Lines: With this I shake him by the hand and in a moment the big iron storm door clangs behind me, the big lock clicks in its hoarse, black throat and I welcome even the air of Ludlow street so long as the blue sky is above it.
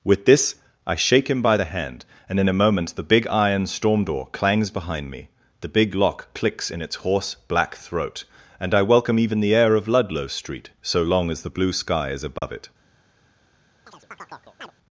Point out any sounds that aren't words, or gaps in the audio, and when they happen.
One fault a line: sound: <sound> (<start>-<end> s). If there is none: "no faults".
sound: dropout (12.4-12.4 s)
sound: chirp (13.9-14.7 s)